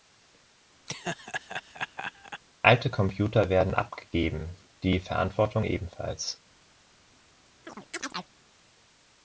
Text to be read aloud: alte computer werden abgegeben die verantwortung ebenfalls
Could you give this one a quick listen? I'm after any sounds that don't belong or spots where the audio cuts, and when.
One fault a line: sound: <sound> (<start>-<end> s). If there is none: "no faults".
sound: laugh (0.9-2.4 s)
sound: chirp (7.6-8.3 s)